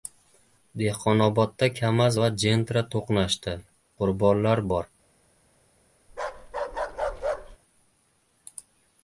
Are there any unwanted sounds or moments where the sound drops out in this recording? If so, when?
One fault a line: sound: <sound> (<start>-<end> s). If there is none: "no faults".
sound: bark (6.1-7.6 s)